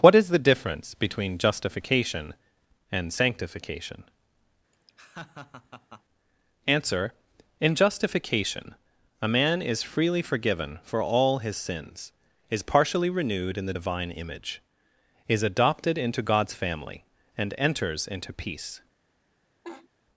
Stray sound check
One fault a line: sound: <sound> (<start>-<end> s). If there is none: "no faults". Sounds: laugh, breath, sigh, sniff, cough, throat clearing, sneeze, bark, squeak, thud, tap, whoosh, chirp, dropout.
sound: laugh (4.7-6.0 s)
sound: laugh (19.6-19.9 s)